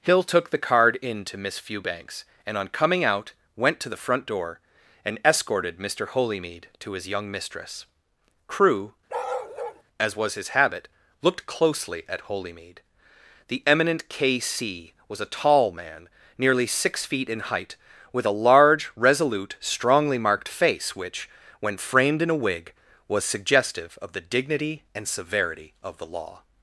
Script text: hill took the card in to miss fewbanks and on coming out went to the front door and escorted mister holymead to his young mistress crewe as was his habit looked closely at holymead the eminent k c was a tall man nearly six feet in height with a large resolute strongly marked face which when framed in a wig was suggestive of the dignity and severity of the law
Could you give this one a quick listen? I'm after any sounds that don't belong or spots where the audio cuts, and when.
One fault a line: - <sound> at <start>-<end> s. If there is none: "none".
- bark at 9.1-9.8 s